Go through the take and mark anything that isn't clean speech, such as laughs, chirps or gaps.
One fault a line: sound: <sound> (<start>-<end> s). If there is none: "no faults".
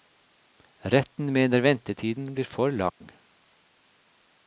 sound: dropout (2.9-3.0 s)